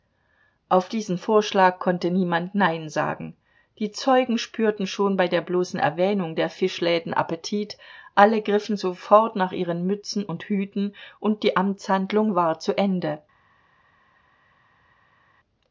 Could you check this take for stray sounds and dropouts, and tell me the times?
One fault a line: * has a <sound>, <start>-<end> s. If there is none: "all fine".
all fine